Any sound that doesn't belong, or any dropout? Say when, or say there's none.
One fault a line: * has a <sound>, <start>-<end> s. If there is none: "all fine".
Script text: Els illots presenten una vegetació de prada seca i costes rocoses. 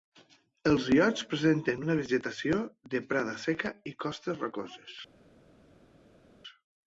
all fine